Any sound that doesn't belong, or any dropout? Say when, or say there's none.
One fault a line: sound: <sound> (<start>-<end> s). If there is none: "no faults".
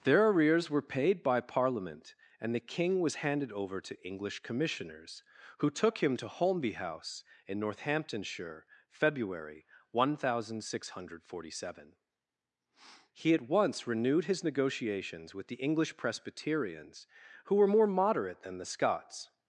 no faults